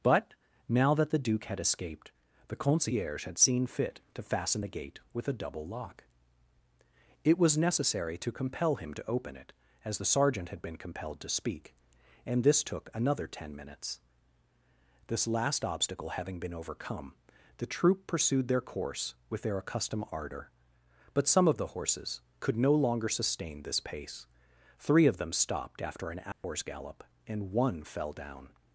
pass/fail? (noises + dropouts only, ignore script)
fail